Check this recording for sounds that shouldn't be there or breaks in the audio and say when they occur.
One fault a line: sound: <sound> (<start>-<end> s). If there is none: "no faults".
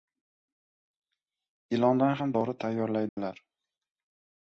sound: dropout (3.1-3.2 s)